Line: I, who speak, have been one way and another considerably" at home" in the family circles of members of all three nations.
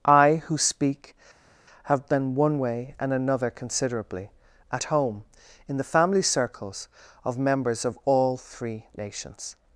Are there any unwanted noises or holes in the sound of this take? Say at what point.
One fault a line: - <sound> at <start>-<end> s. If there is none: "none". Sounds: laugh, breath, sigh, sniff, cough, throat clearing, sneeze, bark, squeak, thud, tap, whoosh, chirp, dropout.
none